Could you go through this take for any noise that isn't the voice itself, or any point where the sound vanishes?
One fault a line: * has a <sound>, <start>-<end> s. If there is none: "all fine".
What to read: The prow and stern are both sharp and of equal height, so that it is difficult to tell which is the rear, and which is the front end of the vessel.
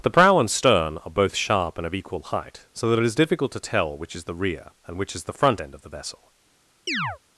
* has a chirp, 6.9-7.2 s